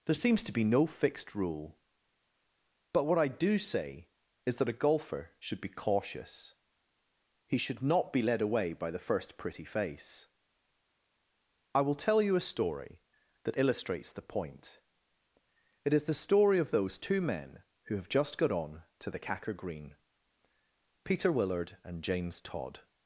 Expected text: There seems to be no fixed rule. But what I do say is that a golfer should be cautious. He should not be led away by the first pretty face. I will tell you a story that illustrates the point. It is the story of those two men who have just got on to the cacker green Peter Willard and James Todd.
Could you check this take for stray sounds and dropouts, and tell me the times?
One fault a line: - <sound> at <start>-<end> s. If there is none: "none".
none